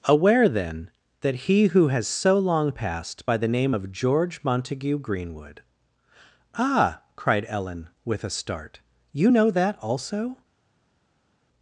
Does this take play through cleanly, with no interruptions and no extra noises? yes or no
yes